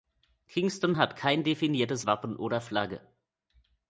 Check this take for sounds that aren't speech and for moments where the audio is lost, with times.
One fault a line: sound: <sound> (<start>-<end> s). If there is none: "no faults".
no faults